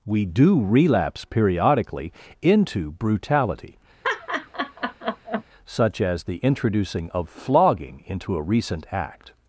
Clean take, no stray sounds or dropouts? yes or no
no